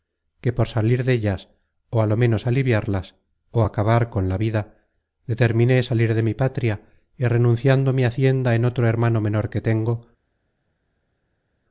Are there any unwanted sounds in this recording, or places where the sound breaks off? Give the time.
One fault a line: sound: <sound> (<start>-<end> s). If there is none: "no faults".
no faults